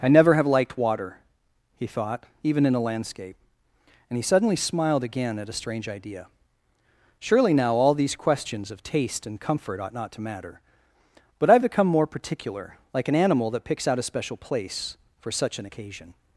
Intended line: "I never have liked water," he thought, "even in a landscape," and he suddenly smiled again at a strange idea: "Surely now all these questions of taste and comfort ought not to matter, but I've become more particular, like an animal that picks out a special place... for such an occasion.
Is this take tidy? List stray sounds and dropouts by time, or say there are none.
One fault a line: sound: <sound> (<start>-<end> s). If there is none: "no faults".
no faults